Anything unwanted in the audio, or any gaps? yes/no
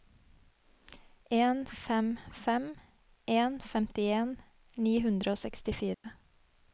yes